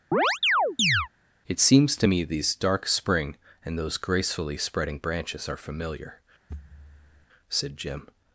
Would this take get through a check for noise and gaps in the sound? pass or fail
fail